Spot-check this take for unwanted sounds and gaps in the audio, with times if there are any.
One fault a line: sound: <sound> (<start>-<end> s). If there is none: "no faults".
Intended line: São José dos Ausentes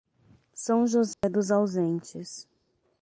sound: dropout (1.1-1.2 s)